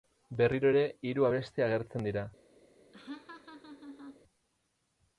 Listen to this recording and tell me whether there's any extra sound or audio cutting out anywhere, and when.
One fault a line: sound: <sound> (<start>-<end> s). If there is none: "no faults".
sound: laugh (2.9-4.2 s)